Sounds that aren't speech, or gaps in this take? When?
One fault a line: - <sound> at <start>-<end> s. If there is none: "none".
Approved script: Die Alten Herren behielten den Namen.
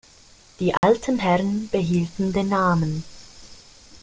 - dropout at 0.8-0.8 s